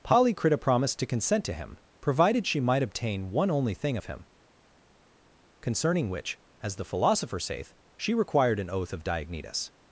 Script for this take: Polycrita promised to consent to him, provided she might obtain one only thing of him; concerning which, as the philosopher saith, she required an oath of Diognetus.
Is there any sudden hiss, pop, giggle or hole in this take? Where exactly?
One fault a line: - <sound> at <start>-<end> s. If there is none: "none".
none